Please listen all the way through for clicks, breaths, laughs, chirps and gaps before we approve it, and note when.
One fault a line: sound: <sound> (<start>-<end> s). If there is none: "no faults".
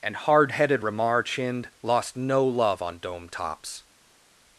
no faults